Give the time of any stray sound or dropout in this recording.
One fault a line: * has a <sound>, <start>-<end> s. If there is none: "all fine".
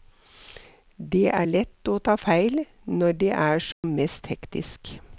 * has a dropout, 3.7-3.8 s